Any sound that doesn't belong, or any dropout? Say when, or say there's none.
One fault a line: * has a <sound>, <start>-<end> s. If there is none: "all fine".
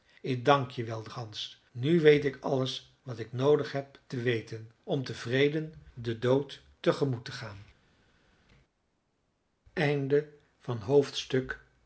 all fine